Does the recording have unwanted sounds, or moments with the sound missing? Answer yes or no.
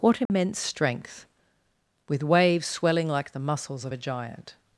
yes